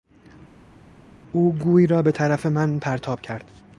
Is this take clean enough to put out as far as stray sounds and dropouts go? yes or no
yes